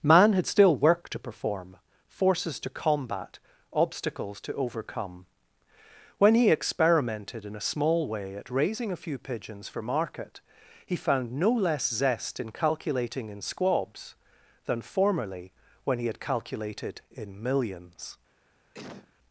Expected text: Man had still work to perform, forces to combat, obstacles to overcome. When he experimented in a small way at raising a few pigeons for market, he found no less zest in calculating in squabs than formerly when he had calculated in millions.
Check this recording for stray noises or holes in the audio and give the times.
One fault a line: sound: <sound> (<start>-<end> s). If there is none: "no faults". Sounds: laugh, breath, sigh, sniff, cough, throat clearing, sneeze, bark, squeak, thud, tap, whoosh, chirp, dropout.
sound: sneeze (18.7-19.1 s)